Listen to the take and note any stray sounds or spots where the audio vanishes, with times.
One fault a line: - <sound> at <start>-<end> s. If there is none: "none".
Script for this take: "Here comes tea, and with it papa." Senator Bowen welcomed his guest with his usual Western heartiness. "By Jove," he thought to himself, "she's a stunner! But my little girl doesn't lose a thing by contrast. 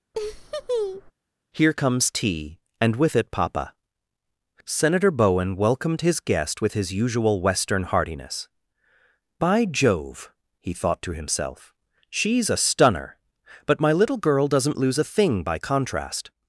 - laugh at 0.1-1.1 s